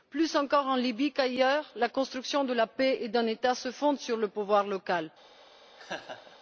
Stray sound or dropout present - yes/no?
yes